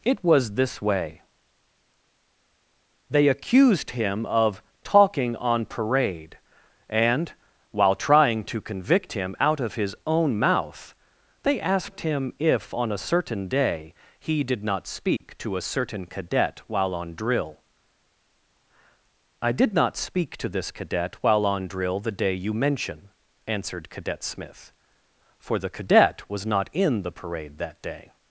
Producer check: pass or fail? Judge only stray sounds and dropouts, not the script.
fail